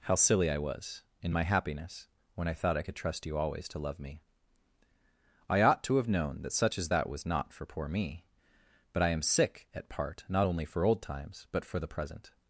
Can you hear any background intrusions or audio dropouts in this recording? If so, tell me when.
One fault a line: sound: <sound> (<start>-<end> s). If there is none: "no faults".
no faults